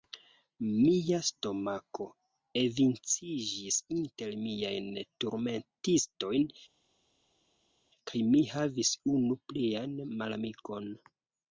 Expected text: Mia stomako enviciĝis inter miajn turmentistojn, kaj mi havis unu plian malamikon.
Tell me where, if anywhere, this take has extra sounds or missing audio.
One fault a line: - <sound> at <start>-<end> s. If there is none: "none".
none